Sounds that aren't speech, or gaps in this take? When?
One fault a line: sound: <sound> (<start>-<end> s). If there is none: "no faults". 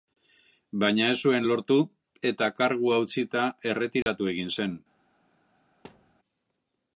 sound: dropout (4.0-4.1 s)
sound: thud (5.8-6.2 s)